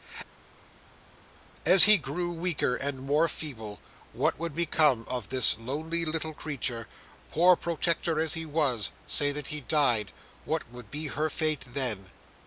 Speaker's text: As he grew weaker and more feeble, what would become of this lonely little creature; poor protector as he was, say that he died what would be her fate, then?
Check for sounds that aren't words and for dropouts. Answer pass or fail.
pass